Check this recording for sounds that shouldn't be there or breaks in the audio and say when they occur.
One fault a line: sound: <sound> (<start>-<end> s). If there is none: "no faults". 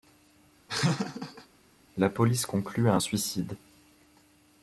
sound: laugh (0.7-1.5 s)